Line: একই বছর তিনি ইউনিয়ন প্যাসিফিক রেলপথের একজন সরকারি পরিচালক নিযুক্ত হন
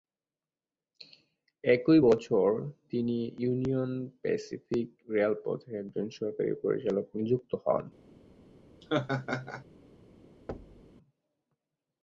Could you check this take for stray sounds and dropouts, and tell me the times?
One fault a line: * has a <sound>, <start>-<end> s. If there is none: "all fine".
* has a laugh, 8.8-9.6 s
* has a thud, 10.5-10.9 s